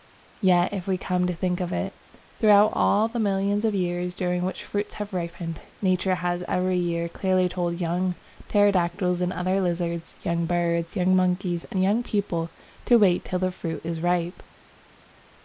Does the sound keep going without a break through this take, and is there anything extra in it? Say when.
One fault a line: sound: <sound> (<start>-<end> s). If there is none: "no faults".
no faults